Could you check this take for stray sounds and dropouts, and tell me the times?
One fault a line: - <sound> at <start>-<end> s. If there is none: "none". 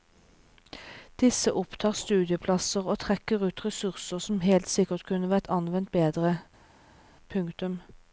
none